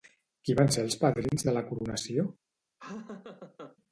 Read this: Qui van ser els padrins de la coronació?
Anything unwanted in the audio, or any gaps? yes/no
yes